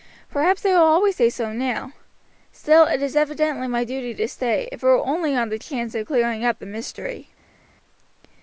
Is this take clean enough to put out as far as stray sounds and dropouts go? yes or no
yes